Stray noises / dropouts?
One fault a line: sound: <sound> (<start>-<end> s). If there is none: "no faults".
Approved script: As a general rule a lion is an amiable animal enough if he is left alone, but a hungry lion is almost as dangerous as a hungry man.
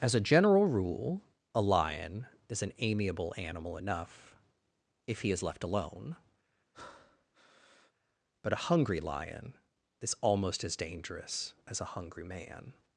sound: breath (6.7-7.9 s)